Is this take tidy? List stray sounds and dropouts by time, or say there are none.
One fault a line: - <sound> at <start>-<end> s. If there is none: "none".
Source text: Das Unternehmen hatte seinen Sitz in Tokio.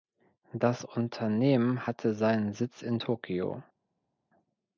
none